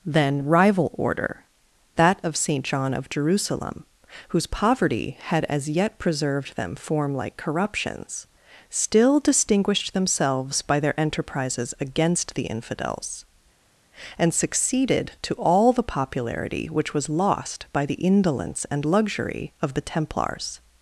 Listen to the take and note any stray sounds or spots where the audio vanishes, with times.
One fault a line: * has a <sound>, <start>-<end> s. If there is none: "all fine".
all fine